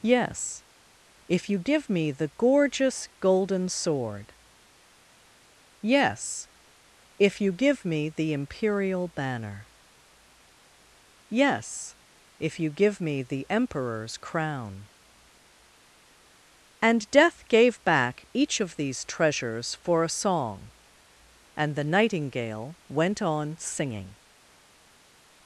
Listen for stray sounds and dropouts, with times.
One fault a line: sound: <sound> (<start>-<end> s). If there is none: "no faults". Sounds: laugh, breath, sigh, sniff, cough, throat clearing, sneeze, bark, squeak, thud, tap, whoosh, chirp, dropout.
no faults